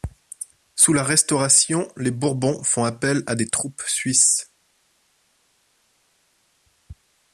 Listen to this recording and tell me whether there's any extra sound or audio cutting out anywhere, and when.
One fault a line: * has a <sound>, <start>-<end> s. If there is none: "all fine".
all fine